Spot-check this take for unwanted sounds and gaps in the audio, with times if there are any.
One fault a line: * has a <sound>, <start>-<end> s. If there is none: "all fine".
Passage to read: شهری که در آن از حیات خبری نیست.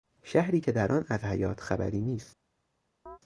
* has a chirp, 3.1-3.2 s